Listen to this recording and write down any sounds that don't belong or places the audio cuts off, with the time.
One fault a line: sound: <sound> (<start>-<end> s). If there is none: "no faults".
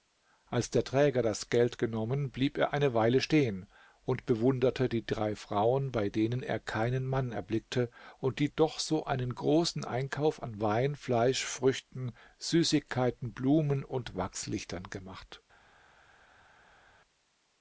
no faults